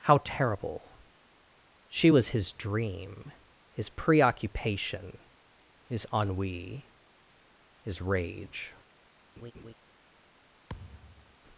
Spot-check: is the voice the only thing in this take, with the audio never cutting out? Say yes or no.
no